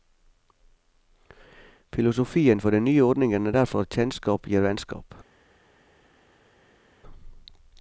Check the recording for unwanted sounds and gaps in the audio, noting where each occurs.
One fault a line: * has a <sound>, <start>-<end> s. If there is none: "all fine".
all fine